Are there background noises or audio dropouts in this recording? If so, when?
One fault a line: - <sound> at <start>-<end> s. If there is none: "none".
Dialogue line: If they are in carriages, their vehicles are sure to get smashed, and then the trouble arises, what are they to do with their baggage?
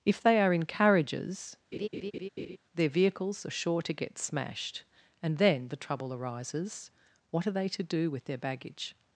- laugh at 1.7-2.6 s